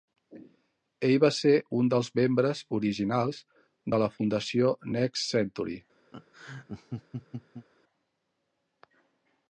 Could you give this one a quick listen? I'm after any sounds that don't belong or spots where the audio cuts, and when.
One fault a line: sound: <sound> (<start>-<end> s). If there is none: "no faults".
sound: laugh (6.1-7.7 s)